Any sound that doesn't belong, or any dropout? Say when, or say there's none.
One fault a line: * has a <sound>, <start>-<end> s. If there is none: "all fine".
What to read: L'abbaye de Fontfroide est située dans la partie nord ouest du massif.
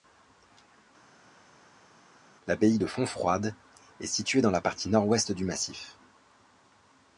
all fine